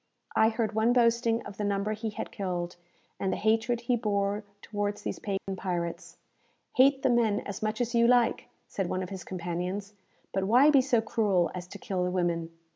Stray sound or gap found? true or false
true